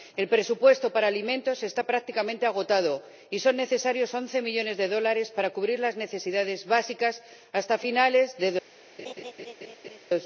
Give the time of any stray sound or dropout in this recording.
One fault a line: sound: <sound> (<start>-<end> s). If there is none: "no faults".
sound: laugh (9.0-10.0 s)